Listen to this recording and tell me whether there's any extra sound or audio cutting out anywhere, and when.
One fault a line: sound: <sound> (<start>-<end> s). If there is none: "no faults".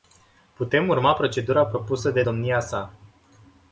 no faults